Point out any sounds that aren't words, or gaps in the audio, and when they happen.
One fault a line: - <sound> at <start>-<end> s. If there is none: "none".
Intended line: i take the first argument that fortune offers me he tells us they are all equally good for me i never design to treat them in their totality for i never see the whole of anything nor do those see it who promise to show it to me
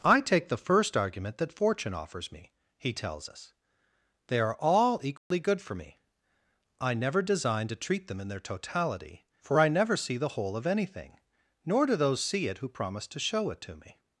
- dropout at 5.2-5.3 s